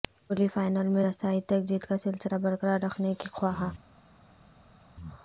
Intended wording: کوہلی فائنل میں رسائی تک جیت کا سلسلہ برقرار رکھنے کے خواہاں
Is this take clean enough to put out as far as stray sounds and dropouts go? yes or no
yes